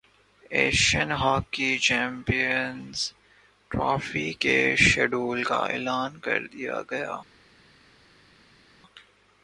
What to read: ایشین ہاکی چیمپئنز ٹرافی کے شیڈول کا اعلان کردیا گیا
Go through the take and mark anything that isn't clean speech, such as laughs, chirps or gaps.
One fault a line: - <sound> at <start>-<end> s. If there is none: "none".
none